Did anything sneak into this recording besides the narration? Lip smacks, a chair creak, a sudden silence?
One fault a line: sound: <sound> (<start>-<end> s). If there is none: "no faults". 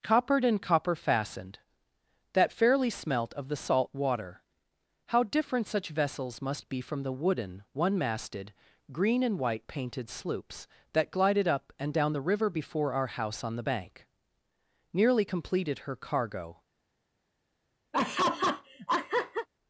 sound: laugh (17.9-19.5 s)